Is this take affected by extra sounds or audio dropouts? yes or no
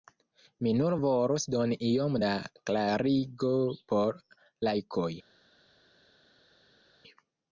no